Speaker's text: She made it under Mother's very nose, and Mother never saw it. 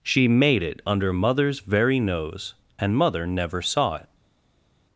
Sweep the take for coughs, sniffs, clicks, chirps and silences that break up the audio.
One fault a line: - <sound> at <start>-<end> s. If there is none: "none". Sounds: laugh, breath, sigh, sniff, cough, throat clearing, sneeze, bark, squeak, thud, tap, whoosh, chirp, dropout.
none